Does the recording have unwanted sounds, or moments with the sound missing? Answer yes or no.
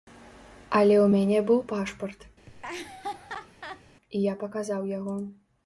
yes